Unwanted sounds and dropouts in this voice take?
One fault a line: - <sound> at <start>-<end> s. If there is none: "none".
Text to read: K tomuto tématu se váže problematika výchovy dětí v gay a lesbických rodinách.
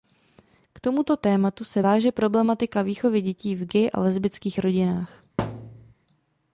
- thud at 5.4-5.9 s